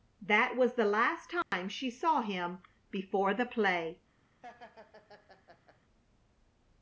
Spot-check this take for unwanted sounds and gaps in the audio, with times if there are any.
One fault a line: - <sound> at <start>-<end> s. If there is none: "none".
- dropout at 1.4-1.5 s
- laugh at 4.4-5.8 s